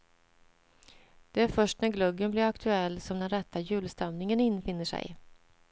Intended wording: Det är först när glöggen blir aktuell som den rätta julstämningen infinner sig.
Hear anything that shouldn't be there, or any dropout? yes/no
no